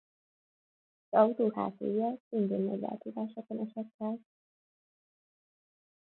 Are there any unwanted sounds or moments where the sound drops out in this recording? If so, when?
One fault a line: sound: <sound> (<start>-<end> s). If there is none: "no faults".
no faults